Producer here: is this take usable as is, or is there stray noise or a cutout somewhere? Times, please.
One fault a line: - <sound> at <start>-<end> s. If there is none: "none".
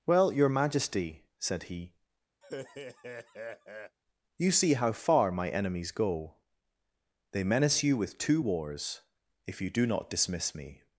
- laugh at 2.4-4.0 s